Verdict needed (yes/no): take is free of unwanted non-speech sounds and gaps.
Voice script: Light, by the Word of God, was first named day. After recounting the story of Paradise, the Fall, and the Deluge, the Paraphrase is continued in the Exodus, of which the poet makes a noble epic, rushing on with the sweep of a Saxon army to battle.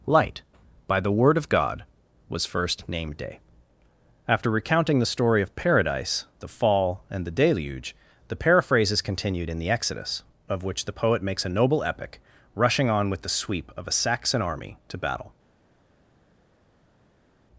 yes